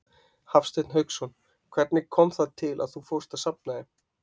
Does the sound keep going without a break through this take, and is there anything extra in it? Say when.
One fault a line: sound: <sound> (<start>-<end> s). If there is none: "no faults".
no faults